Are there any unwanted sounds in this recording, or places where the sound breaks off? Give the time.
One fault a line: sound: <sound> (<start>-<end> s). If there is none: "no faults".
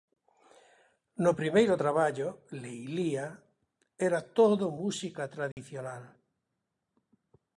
sound: dropout (5.5-5.6 s)